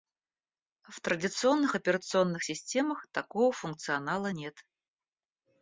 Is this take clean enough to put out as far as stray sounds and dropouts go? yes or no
yes